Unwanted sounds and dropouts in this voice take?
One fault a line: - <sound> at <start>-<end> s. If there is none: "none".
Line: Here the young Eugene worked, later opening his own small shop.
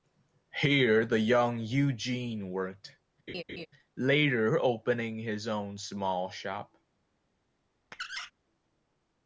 - laugh at 3.3-3.7 s
- squeak at 7.9-8.3 s